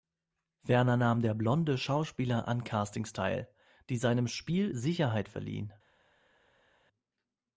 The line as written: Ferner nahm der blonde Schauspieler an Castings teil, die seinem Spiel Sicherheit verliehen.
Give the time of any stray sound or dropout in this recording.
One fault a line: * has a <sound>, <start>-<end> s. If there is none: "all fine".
all fine